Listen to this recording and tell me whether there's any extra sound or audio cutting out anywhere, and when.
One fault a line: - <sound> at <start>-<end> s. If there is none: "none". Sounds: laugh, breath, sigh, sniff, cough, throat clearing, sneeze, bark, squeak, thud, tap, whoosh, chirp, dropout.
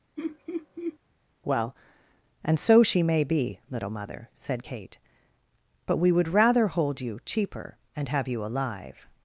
- laugh at 0.2-1.0 s